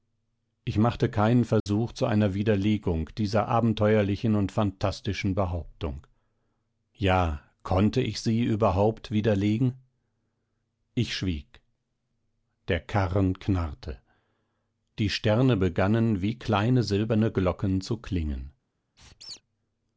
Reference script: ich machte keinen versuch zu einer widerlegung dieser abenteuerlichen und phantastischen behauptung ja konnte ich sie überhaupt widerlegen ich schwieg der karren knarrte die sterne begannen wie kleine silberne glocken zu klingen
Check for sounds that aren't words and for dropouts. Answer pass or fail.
fail